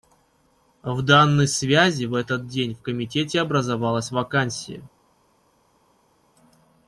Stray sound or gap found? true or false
false